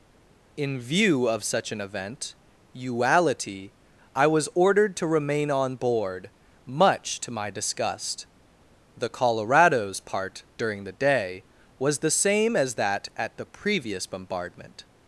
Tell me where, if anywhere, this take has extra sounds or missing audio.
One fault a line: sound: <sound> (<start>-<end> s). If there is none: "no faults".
no faults